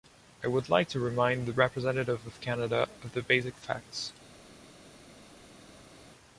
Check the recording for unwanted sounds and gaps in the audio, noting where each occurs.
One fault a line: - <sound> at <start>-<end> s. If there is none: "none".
none